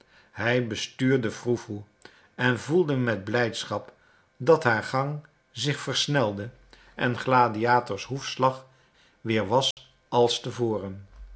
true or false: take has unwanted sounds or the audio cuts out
true